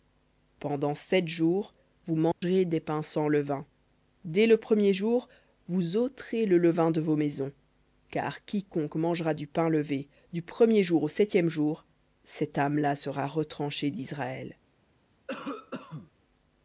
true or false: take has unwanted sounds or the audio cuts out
true